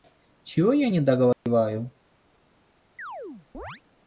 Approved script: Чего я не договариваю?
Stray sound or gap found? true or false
true